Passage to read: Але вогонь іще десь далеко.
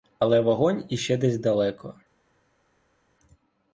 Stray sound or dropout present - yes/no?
no